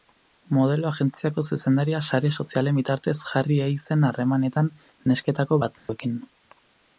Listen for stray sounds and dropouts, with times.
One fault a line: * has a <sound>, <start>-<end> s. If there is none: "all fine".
* has a dropout, 5.8-5.9 s